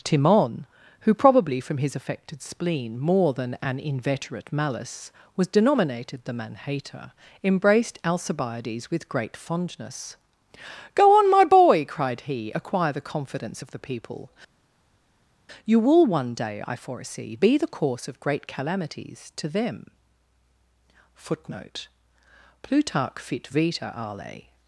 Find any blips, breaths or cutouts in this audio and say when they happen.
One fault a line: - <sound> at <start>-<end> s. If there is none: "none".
none